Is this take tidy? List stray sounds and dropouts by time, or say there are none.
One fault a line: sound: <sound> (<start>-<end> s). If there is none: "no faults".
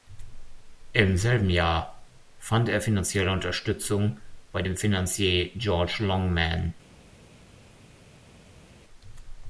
no faults